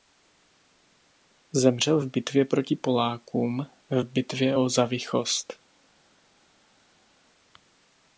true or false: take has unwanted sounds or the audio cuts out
false